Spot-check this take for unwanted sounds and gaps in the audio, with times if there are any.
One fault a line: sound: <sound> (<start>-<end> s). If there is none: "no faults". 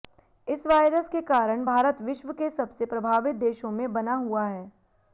no faults